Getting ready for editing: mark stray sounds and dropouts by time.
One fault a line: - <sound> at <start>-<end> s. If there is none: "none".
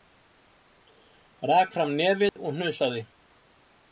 - dropout at 2.3-2.4 s